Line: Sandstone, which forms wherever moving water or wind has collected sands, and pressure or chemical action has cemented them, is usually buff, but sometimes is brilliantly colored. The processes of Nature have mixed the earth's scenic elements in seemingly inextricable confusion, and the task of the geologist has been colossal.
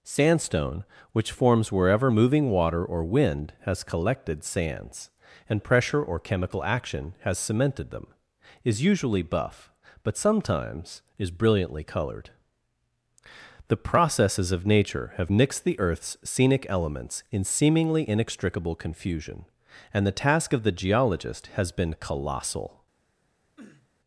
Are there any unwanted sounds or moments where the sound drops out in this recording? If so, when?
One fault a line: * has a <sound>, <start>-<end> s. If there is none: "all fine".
* has a sniff, 23.6-23.9 s